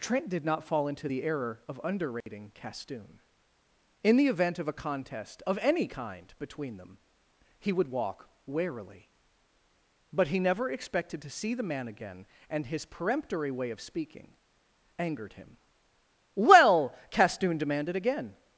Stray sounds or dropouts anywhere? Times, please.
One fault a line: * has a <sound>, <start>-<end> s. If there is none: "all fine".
* has a dropout, 2.2-2.3 s